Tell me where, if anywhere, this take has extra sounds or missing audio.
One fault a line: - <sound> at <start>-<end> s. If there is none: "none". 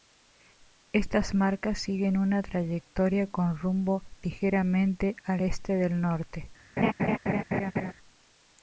- laugh at 6.8-7.9 s